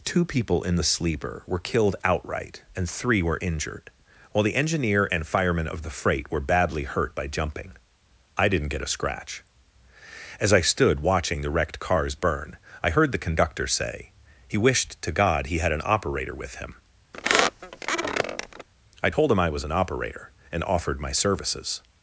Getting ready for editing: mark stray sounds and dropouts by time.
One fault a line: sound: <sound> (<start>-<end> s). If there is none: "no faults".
sound: squeak (17.1-18.7 s)